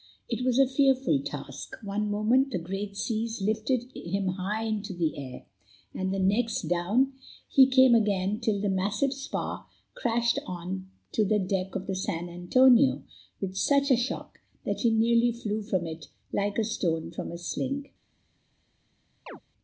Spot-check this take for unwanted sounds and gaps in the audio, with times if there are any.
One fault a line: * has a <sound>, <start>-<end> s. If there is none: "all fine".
* has a chirp, 19.3-19.4 s